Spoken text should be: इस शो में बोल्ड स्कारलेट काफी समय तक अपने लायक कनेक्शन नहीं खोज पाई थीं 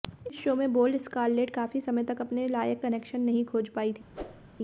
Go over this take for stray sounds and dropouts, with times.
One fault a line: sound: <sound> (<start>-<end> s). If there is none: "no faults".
sound: whoosh (4.1-4.5 s)